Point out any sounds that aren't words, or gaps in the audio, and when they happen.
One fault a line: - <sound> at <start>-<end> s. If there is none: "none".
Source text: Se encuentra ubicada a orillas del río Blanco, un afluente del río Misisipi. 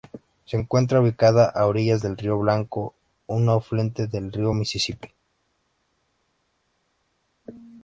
none